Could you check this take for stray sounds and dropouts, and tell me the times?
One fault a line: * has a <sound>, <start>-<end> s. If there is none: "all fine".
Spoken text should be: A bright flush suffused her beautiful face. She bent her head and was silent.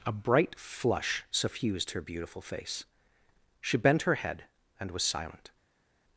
all fine